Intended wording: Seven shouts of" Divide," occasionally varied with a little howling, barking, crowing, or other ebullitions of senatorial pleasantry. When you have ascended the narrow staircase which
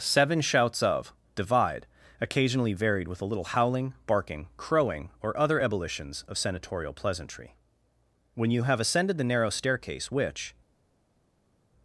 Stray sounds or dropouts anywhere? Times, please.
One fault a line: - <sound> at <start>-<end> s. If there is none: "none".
none